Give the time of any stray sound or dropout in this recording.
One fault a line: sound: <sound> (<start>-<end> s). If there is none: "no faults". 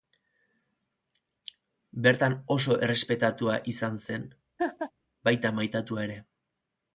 sound: laugh (4.6-4.9 s)